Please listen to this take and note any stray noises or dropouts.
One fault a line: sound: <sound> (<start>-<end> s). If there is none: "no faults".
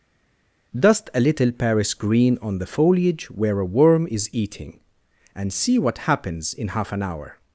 no faults